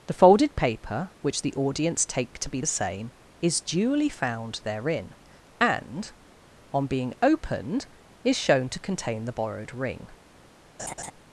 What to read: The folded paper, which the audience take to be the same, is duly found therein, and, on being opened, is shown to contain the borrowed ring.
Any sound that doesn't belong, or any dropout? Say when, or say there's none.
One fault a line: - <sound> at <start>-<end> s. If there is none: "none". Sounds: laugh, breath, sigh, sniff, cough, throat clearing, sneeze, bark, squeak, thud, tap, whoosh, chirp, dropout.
- laugh at 10.8-11.1 s